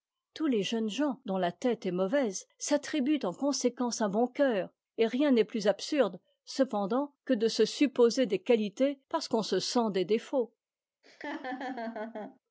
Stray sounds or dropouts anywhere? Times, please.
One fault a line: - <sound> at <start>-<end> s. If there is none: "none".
- laugh at 11.0-12.4 s